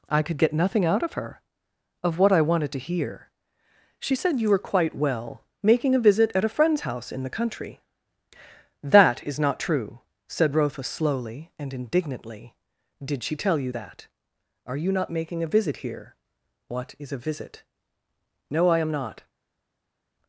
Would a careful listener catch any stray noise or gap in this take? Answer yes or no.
no